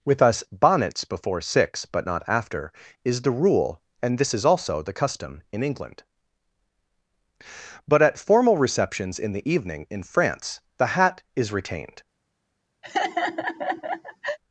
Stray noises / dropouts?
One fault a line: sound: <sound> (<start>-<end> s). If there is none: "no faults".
sound: laugh (12.8-14.4 s)